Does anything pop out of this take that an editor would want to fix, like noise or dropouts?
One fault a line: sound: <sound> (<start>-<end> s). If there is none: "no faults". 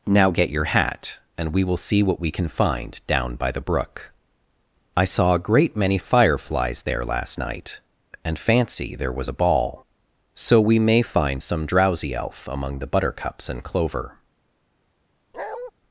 sound: bark (15.3-15.7 s)